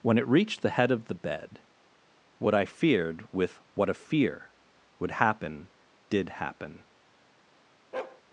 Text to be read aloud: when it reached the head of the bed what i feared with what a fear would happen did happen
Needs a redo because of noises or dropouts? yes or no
yes